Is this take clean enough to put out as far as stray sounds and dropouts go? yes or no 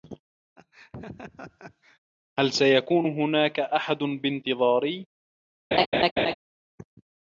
no